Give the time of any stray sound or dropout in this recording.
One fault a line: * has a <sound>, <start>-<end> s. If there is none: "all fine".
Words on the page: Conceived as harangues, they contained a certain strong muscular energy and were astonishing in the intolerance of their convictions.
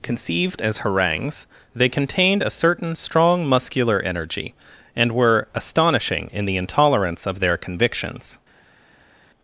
all fine